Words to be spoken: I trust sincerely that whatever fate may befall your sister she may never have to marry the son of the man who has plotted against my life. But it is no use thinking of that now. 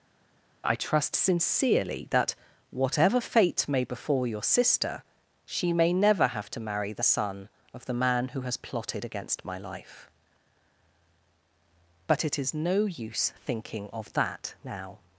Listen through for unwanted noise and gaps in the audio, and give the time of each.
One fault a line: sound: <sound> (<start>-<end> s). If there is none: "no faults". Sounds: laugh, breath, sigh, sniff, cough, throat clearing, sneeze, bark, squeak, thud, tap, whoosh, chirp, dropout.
no faults